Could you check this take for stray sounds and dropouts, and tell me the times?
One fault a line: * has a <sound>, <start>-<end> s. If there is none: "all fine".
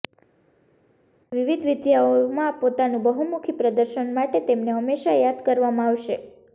all fine